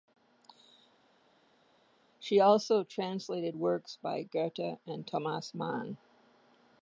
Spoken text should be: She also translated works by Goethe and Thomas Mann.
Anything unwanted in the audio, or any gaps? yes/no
no